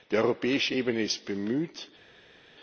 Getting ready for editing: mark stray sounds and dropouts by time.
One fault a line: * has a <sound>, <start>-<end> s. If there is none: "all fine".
all fine